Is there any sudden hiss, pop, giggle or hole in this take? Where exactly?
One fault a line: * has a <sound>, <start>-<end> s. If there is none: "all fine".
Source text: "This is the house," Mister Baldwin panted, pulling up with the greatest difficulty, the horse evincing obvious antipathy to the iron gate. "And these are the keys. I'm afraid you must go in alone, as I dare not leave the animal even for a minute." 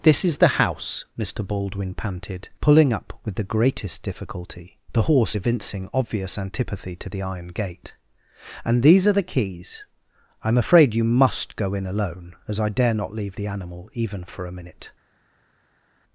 all fine